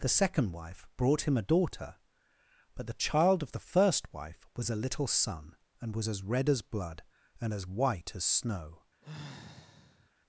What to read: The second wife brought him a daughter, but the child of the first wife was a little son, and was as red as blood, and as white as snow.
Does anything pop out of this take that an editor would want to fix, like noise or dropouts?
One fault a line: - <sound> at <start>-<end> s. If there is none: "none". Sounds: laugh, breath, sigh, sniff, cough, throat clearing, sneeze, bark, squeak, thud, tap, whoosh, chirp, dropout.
- sigh at 9.0-10.1 s